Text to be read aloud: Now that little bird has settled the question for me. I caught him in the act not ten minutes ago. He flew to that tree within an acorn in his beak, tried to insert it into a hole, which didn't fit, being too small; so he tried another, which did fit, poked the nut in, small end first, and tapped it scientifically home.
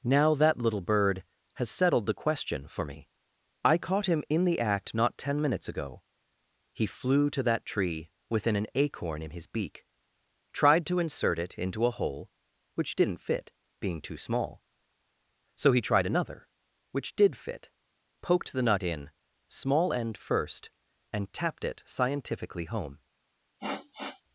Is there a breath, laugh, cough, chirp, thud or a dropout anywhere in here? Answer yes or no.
yes